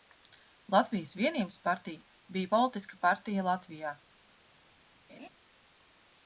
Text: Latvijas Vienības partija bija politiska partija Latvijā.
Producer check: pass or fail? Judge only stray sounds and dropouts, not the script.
fail